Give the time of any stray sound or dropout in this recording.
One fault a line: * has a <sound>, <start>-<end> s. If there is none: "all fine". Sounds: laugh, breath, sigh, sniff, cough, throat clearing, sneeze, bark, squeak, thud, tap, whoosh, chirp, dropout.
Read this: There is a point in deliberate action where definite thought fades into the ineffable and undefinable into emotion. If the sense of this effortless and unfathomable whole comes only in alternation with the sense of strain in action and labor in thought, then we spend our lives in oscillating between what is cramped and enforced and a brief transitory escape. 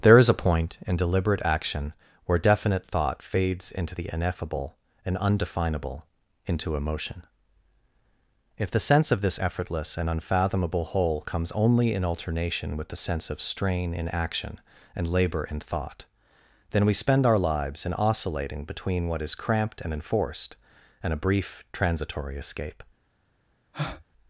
* has a breath, 23.7-24.0 s